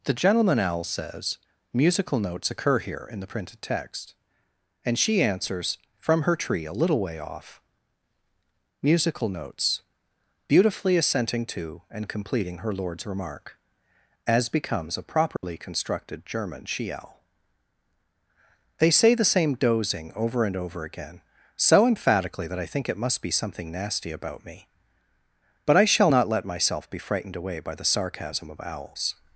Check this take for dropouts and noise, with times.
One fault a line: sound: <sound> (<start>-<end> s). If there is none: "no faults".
sound: dropout (15.4-15.4 s)